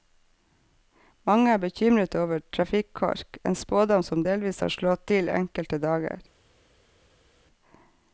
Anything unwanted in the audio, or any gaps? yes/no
no